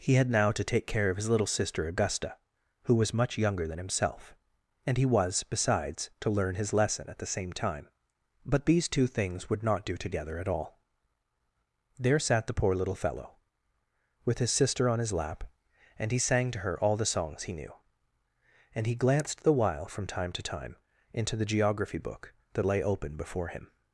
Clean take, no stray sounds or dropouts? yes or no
yes